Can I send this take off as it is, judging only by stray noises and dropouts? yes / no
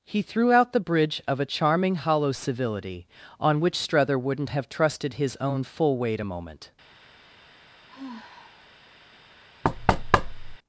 no